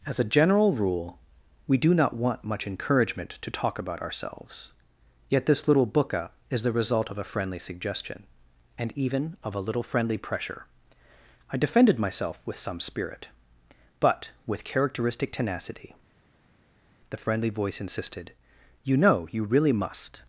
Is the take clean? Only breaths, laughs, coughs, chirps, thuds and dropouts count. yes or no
yes